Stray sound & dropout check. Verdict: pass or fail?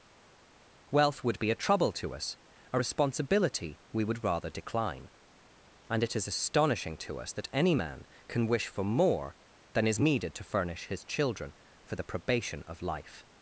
pass